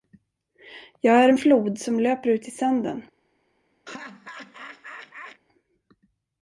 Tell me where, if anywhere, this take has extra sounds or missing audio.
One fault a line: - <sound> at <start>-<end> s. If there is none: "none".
- laugh at 3.9-5.4 s